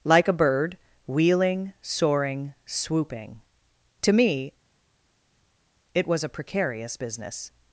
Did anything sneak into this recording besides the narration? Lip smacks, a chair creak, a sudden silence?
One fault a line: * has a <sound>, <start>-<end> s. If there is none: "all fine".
all fine